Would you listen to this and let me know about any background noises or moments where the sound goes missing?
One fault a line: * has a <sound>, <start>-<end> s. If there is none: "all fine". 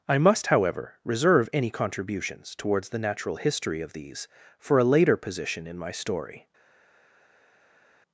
all fine